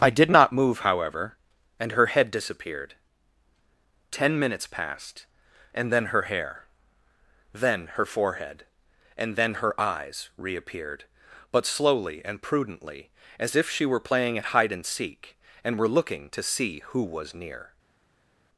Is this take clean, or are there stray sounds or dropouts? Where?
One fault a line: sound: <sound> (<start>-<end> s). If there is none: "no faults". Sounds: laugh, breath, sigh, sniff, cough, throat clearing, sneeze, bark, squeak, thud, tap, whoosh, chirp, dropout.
no faults